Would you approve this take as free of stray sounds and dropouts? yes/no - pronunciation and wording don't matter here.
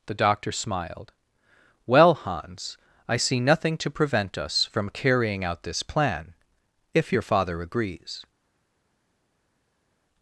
yes